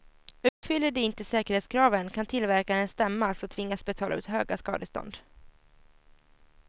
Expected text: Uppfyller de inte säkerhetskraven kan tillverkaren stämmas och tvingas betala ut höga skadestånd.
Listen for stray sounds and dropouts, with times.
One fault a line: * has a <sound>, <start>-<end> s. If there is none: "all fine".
* has a dropout, 0.5-0.6 s